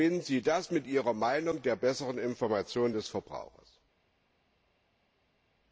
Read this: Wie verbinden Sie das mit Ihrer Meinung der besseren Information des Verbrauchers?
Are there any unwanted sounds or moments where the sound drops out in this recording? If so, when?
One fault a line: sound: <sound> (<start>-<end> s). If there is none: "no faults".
no faults